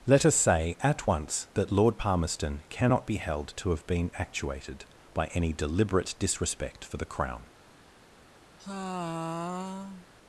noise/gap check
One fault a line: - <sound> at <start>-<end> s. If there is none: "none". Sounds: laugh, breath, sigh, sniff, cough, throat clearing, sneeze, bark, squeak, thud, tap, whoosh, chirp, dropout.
- sigh at 8.6-10.1 s